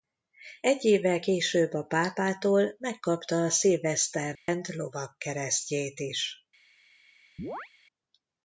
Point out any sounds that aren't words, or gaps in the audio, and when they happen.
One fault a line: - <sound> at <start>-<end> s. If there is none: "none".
- dropout at 4.4-4.5 s
- chirp at 7.4-7.7 s